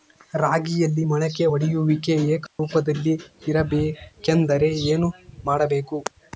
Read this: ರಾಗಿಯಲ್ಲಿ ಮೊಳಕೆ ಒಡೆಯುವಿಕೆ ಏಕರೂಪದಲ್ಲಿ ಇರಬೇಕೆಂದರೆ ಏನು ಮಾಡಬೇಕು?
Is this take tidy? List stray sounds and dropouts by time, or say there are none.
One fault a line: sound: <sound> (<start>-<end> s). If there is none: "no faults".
sound: dropout (2.5-2.6 s)